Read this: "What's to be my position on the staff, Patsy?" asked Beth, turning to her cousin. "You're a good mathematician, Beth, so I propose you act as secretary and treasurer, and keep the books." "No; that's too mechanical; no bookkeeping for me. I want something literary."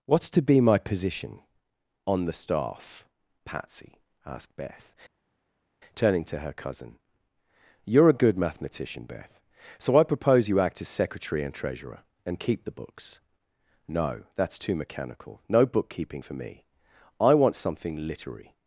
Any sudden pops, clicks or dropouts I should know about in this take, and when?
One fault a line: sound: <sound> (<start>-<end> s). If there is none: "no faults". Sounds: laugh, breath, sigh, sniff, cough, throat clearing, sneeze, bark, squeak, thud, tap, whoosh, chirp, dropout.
no faults